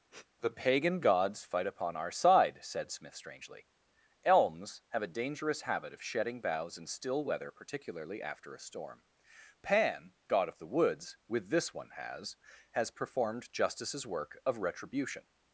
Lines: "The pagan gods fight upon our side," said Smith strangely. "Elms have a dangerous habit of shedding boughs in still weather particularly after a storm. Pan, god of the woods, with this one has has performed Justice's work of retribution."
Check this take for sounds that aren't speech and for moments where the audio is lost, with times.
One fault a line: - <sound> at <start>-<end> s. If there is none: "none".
- sniff at 0.1-0.3 s